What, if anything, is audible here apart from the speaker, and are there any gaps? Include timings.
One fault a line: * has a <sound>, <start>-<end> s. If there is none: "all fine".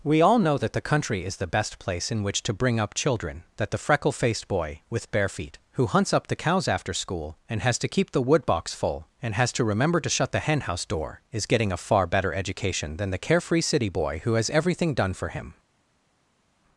all fine